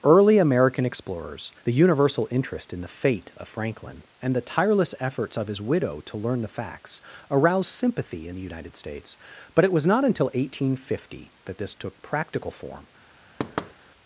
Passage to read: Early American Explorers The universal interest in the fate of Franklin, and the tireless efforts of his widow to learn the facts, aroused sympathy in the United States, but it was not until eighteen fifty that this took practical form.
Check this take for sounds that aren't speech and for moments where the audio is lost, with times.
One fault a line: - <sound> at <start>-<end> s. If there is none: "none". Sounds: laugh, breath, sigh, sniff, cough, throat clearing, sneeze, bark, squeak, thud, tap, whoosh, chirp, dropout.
- thud at 13.4-13.7 s